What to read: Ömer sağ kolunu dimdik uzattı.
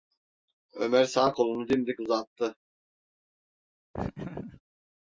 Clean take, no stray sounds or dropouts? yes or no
no